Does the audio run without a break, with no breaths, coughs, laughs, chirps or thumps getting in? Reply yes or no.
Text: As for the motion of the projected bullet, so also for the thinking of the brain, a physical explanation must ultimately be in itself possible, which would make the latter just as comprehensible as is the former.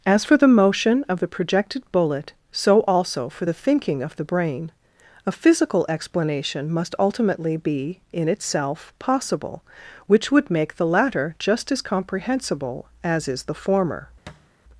no